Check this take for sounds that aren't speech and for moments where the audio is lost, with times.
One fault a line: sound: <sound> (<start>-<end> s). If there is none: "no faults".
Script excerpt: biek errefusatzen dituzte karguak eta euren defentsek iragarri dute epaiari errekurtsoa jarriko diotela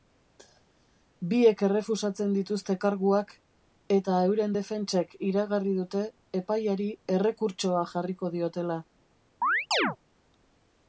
sound: chirp (9.4-10.0 s)